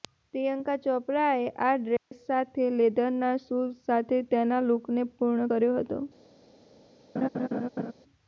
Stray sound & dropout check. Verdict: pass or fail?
fail